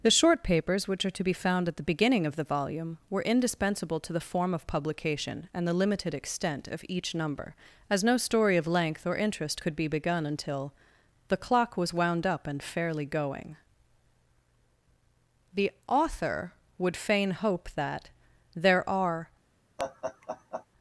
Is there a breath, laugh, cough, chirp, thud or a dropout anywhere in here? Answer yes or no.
yes